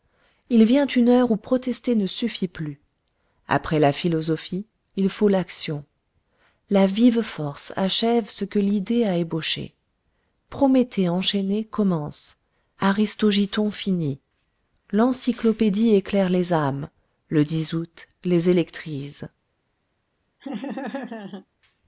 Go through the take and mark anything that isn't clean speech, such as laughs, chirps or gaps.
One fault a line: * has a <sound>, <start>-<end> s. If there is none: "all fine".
* has a laugh, 20.4-21.5 s